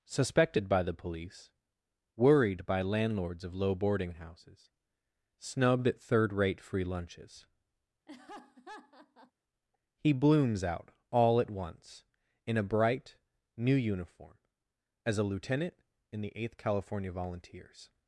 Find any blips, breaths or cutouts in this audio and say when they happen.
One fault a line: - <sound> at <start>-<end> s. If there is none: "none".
- laugh at 8.1-9.3 s